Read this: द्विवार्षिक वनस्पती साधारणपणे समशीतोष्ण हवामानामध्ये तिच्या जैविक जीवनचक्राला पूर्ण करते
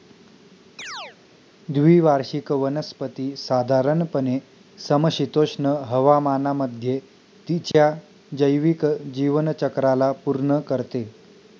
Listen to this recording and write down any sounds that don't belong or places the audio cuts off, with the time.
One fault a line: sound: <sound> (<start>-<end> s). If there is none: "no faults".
sound: chirp (0.8-1.2 s)
sound: dropout (7.7-7.7 s)